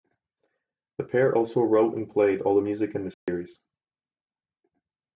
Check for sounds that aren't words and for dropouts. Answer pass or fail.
fail